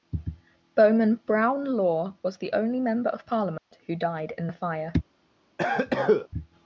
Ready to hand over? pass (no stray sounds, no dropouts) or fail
fail